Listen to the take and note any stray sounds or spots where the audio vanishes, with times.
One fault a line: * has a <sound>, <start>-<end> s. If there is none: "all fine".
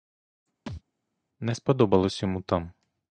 * has a thud, 0.7-0.8 s